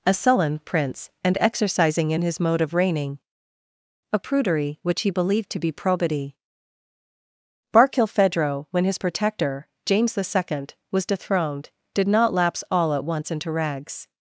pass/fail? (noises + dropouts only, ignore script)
pass